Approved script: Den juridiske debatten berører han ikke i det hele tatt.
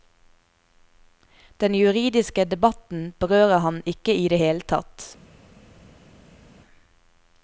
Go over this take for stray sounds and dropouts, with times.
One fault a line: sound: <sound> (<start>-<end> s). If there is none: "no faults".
no faults